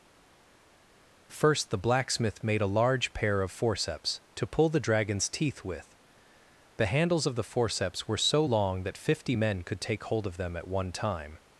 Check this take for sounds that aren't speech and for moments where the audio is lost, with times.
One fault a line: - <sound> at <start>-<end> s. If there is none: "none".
none